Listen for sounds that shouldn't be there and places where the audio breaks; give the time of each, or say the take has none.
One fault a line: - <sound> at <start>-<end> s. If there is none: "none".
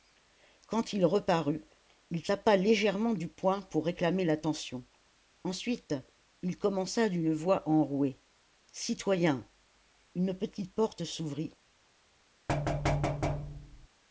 - thud at 12.5-13.9 s